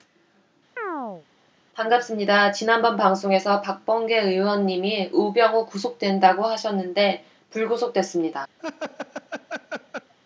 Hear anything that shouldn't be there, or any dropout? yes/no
yes